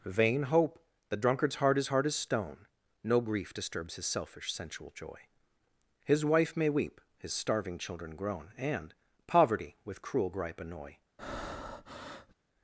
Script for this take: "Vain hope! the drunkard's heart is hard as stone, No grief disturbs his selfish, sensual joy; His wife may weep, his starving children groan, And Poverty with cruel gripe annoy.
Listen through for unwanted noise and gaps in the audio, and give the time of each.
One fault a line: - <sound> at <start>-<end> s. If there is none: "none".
- breath at 11.2-12.3 s